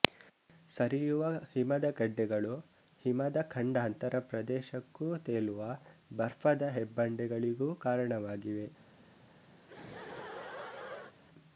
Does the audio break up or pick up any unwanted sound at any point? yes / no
yes